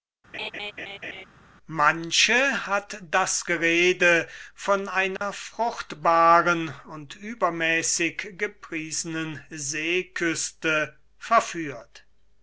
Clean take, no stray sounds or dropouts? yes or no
no